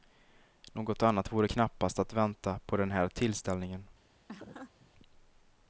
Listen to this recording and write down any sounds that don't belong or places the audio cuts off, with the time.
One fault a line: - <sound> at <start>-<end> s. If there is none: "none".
- laugh at 4.3-4.9 s